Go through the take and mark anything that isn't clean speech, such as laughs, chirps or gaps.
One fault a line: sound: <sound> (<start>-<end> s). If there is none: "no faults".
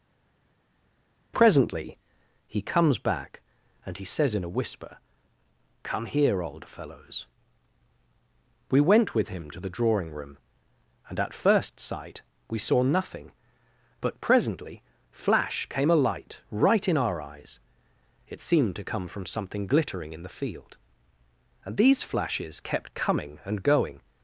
no faults